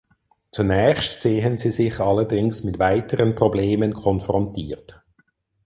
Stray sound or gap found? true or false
false